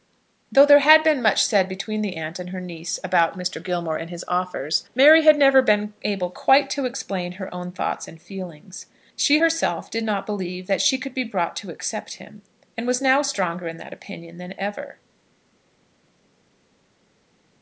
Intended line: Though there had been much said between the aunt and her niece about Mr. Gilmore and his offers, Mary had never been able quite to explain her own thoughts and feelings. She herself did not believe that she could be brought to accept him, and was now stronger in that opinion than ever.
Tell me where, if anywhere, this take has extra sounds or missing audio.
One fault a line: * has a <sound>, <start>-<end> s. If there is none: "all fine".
all fine